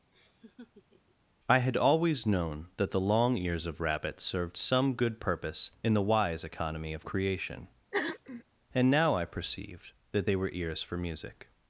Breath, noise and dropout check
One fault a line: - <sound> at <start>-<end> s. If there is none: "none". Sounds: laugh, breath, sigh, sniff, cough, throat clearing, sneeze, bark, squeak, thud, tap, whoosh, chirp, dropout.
- laugh at 0.1-1.2 s
- throat clearing at 7.9-8.4 s